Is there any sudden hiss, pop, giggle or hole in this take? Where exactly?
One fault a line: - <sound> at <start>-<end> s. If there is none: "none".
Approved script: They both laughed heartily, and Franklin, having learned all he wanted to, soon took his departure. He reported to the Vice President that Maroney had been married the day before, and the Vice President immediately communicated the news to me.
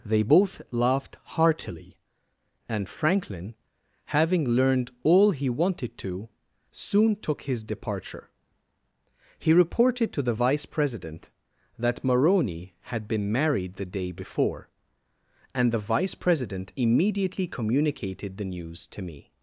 none